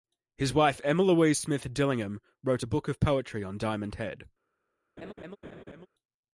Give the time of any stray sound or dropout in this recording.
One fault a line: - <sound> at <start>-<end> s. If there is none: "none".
- laugh at 5.0-5.9 s